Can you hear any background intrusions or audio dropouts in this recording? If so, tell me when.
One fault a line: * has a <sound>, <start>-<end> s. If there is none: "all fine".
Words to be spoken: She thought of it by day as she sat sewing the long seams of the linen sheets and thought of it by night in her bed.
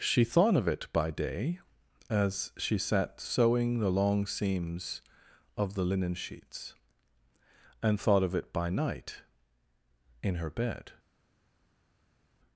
all fine